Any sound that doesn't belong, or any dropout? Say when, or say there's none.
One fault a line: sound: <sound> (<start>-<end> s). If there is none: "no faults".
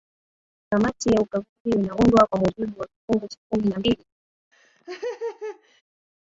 sound: laugh (4.5-5.8 s)